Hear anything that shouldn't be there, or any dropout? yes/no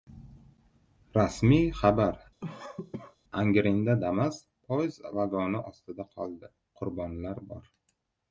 yes